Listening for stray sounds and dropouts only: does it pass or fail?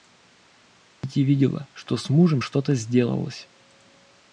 fail